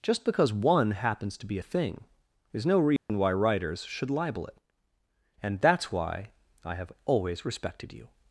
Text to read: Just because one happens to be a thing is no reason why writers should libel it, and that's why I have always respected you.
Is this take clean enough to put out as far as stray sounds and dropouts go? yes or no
no